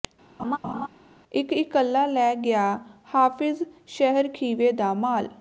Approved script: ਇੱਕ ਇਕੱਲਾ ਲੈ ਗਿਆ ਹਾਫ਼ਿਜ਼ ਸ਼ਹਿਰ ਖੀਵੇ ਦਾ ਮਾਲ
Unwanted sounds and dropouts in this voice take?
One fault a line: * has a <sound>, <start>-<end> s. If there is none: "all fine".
* has a laugh, 0.4-0.9 s